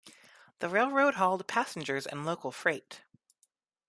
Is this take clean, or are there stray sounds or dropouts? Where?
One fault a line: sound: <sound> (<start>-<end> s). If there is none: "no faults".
no faults